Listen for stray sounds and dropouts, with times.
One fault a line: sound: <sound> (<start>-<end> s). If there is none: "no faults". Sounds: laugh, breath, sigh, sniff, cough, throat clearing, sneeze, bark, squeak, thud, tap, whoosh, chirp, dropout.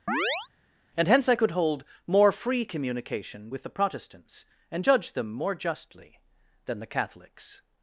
sound: chirp (0.1-0.5 s)